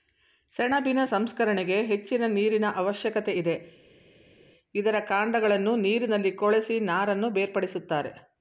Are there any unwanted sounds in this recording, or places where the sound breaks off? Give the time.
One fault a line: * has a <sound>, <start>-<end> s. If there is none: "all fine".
all fine